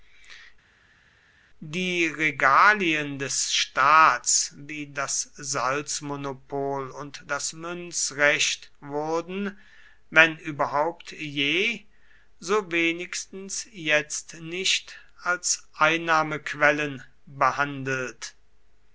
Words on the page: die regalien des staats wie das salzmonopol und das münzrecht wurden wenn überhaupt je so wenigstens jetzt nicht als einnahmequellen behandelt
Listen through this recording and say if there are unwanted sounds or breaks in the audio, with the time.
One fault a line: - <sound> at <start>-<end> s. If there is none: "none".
none